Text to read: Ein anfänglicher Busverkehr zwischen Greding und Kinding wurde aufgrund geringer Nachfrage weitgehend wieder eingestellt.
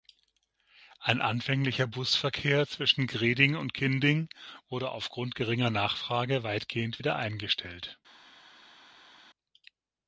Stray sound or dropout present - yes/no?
no